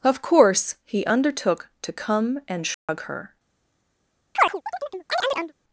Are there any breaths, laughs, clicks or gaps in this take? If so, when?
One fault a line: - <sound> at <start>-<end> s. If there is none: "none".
- dropout at 2.7-2.9 s
- chirp at 4.3-5.5 s